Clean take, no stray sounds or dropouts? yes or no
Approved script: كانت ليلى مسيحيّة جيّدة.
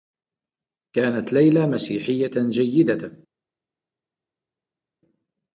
yes